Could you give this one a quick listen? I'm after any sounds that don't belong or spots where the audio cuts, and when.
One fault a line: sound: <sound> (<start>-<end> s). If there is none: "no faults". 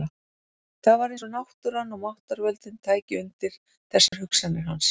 sound: dropout (4.1-4.1 s)